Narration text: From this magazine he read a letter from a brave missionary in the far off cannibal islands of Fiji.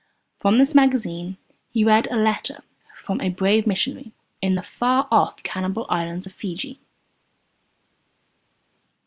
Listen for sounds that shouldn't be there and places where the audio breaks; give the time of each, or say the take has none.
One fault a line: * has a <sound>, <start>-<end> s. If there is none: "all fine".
all fine